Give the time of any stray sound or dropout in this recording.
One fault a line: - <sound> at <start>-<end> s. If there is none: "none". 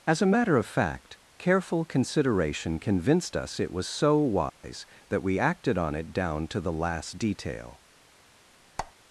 - dropout at 4.5-4.6 s
- squeak at 8.8-8.9 s